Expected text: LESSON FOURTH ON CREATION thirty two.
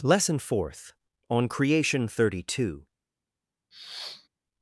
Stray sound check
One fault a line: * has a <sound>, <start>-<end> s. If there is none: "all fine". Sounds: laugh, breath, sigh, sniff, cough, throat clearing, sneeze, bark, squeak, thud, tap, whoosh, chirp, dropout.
* has a sniff, 3.7-4.3 s